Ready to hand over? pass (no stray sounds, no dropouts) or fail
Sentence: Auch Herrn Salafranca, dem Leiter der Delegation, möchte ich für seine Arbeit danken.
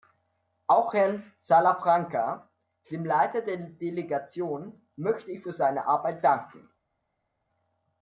pass